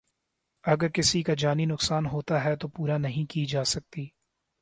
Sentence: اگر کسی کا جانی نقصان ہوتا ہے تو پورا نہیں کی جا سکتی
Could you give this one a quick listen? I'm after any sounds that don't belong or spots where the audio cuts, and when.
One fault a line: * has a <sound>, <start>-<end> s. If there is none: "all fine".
all fine